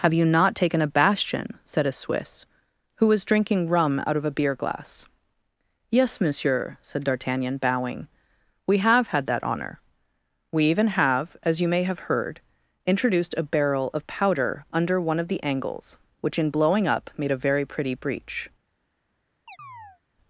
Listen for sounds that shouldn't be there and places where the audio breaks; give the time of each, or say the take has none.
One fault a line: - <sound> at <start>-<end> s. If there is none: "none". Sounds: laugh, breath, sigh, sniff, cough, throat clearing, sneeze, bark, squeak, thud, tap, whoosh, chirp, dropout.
- chirp at 19.5-20.0 s